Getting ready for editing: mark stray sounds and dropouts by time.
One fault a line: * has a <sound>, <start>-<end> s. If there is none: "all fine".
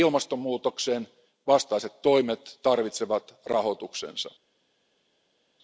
all fine